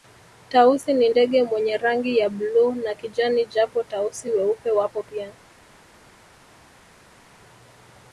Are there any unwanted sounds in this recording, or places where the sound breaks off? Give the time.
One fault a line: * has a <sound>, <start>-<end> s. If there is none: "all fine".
all fine